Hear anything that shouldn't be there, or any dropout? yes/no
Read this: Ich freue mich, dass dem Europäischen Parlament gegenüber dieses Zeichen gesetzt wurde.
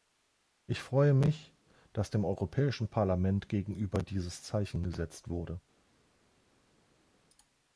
no